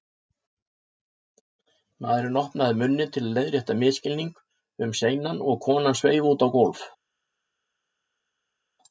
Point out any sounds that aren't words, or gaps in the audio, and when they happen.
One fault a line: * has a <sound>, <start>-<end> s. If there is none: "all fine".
all fine